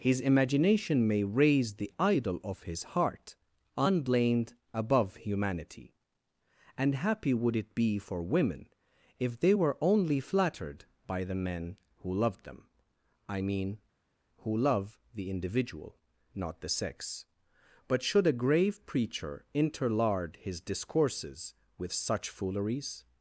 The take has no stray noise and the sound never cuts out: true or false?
true